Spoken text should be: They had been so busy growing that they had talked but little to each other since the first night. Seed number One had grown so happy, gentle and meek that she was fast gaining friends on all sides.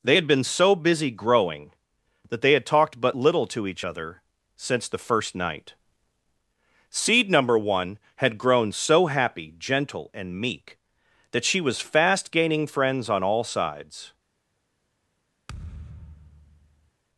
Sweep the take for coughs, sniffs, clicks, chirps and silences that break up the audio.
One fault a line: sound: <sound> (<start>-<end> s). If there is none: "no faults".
sound: thud (15.5-16.9 s)